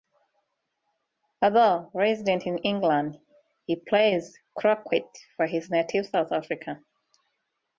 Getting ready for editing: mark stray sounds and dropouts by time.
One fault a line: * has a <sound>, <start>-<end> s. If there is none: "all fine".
all fine